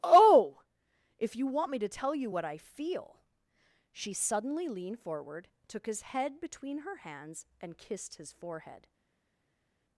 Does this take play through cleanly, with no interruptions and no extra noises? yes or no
yes